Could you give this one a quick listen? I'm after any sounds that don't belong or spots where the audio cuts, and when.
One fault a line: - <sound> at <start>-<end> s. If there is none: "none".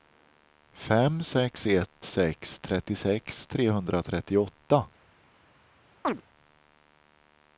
- chirp at 6.0-6.2 s